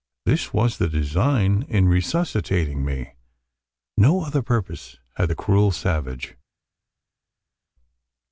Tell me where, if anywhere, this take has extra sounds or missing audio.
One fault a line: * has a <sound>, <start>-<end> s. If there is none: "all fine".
all fine